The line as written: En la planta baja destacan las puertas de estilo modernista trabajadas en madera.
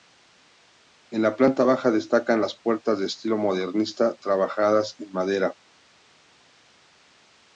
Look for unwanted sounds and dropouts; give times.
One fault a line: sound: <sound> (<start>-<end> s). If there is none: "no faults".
no faults